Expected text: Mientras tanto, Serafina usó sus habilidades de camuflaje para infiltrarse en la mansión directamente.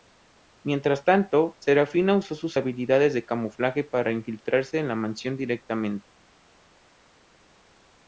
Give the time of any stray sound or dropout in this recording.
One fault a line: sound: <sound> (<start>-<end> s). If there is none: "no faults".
no faults